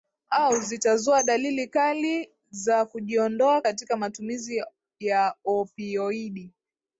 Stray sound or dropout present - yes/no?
no